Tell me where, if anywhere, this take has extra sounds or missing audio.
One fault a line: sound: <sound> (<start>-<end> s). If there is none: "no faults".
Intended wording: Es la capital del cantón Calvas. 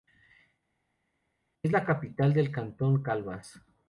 no faults